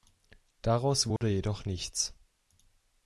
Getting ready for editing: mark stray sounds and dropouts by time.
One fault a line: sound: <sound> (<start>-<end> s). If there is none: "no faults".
sound: dropout (1.2-1.2 s)